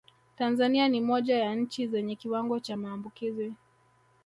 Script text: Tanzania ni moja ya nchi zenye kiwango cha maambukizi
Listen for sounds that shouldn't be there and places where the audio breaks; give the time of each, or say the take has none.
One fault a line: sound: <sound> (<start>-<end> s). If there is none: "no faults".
no faults